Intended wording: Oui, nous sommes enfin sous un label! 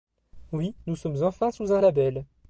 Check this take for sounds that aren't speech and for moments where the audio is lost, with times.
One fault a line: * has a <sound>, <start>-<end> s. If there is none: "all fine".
all fine